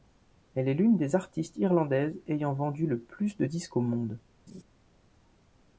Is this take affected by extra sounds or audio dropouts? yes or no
yes